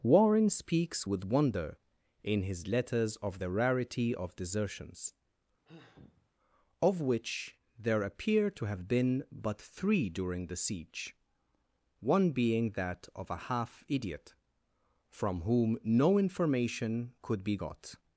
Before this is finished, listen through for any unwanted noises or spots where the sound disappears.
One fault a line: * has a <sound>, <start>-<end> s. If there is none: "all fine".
* has a sigh, 5.6-6.3 s